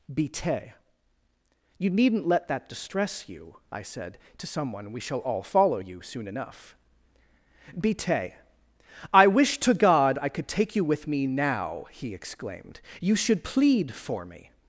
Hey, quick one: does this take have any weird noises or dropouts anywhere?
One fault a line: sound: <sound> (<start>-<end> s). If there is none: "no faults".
no faults